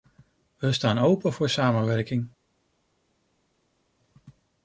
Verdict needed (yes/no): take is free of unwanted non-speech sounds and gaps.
yes